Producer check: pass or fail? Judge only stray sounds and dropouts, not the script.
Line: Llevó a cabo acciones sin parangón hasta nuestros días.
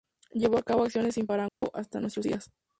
fail